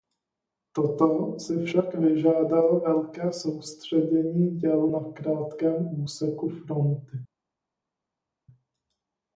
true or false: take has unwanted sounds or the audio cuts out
false